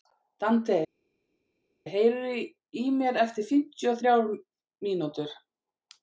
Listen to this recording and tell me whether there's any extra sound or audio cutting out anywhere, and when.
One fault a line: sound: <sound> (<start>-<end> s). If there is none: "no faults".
no faults